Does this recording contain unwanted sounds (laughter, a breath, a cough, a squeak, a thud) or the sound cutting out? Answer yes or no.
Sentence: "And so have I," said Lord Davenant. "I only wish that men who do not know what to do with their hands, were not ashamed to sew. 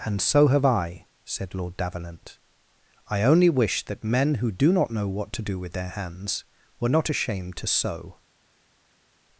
no